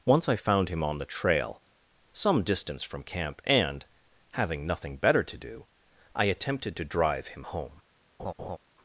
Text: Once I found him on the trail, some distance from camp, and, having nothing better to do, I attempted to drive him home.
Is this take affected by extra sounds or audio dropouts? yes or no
yes